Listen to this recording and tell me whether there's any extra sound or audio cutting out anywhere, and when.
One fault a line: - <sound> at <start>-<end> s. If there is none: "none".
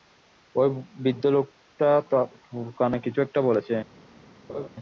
- laugh at 4.5-4.7 s